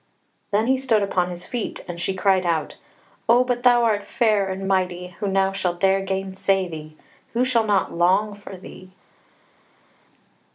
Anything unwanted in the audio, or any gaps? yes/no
no